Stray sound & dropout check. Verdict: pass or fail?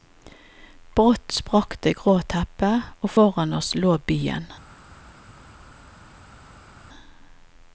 pass